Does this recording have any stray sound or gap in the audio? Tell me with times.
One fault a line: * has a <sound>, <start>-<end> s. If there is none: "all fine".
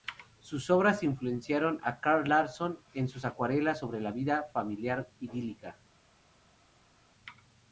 all fine